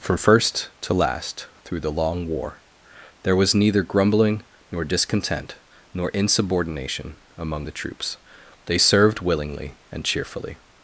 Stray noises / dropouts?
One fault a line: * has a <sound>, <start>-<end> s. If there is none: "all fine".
all fine